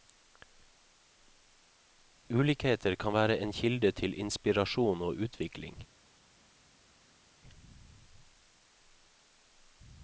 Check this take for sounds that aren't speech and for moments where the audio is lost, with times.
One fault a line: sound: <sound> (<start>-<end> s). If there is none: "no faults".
no faults